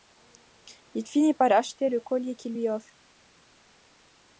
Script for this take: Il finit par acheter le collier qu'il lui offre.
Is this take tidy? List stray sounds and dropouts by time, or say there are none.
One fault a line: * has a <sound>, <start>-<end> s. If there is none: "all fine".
all fine